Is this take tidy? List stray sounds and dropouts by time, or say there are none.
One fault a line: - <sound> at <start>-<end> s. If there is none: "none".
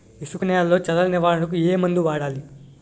none